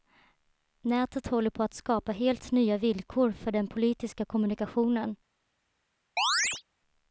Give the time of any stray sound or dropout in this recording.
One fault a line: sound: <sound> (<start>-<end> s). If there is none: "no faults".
sound: chirp (6.2-6.6 s)